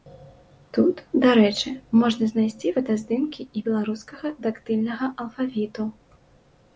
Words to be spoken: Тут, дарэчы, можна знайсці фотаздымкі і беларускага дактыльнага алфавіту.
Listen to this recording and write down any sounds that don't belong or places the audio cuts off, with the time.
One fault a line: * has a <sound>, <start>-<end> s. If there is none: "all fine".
all fine